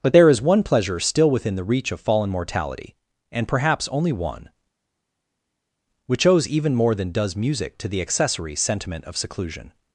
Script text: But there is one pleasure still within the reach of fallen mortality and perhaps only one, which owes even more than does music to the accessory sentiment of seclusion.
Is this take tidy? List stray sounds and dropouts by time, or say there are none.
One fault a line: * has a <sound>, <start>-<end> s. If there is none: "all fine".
all fine